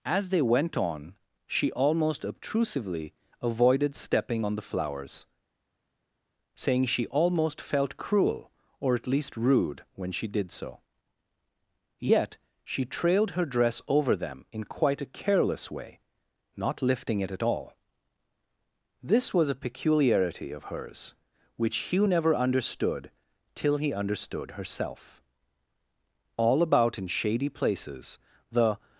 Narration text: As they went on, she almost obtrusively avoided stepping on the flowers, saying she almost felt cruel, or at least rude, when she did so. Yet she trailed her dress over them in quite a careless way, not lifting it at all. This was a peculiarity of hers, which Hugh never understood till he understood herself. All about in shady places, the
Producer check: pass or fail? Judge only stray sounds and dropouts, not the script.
pass